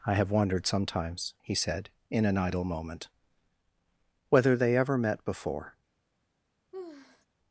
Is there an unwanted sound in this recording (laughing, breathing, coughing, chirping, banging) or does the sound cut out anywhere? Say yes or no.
yes